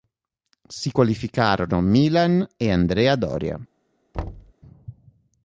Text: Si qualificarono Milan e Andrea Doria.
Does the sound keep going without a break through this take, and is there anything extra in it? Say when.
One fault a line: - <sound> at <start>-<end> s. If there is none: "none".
- thud at 4.1-4.5 s